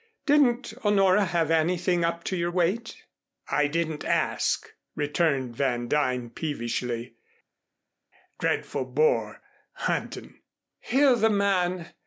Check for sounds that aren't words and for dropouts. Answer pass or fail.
pass